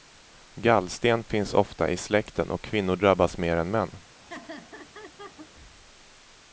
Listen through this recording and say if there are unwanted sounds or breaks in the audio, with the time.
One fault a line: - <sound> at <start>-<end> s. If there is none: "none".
- laugh at 4.2-5.5 s